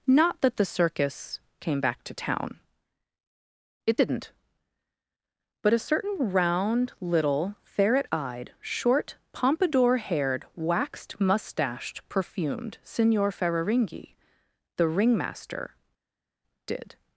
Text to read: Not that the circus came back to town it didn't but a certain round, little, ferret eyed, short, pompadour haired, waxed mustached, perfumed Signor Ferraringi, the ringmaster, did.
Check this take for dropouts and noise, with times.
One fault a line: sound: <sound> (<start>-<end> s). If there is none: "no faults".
no faults